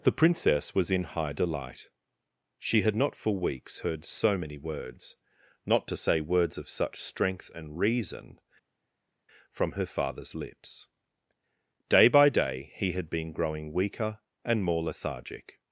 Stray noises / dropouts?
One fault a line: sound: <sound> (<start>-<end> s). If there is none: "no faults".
no faults